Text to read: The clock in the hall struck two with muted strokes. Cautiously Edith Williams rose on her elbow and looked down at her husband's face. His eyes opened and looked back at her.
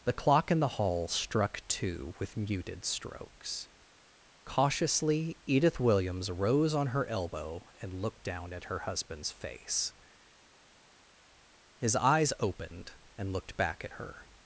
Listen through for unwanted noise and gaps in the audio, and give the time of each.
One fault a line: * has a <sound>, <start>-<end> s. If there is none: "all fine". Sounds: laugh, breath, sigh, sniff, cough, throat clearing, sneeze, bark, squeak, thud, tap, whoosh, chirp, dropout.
all fine